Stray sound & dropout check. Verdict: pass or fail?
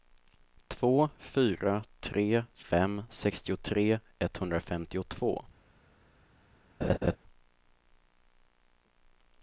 fail